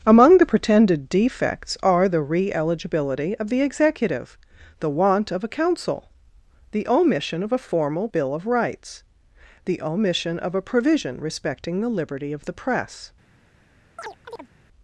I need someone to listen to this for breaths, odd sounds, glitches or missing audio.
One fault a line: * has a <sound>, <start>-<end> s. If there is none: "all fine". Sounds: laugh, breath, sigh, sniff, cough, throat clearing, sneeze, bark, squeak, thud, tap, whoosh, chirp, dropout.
* has a chirp, 14.0-14.5 s